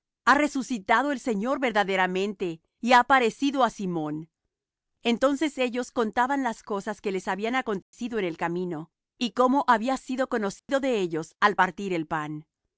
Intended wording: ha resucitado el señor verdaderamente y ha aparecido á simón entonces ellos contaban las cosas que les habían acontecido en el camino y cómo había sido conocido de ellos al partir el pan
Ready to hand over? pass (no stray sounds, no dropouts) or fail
fail